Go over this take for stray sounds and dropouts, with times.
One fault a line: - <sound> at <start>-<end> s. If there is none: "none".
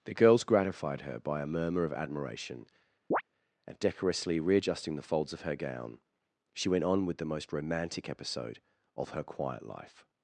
- chirp at 3.1-3.2 s